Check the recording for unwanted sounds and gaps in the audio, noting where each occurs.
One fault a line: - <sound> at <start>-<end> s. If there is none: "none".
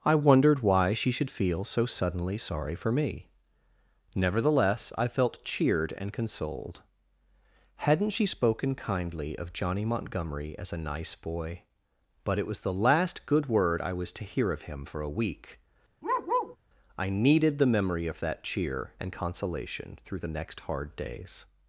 - bark at 16.0-16.6 s